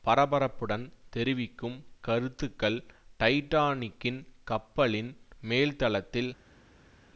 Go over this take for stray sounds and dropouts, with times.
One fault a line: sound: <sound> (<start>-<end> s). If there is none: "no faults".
no faults